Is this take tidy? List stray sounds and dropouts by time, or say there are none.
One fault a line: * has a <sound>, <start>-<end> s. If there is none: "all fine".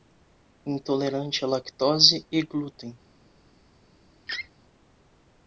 * has a laugh, 4.3-4.5 s